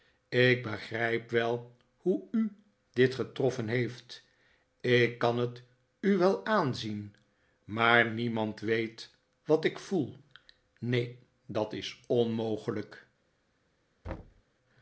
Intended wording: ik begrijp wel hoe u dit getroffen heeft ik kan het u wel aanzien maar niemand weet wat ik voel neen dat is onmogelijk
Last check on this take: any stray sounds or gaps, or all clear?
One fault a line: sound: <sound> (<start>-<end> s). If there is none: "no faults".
sound: thud (14.0-14.4 s)